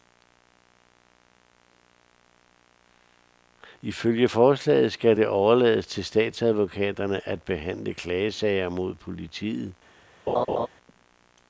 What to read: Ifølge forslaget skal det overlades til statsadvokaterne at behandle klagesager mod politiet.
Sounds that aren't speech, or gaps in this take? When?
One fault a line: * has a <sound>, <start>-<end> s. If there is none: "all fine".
* has a laugh, 10.3-10.7 s